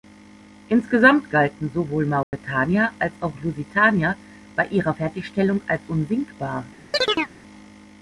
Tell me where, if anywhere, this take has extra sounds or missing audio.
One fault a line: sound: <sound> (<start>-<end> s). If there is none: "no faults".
sound: dropout (2.2-2.3 s)
sound: chirp (6.9-7.3 s)